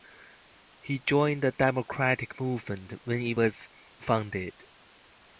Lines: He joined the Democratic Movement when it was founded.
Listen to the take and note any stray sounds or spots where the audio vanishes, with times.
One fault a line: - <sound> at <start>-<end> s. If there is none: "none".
none